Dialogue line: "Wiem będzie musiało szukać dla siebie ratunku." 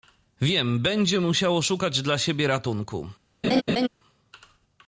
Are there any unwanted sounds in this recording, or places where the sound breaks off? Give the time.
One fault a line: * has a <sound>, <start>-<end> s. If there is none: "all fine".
* has a laugh, 3.4-3.9 s